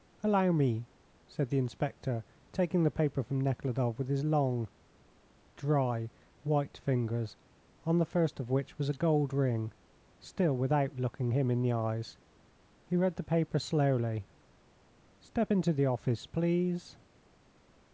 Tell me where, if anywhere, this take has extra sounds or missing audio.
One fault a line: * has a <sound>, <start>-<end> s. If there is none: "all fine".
all fine